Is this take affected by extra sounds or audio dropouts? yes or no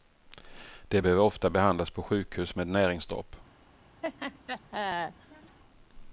yes